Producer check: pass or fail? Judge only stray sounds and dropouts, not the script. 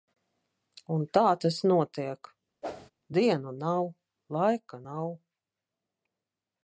fail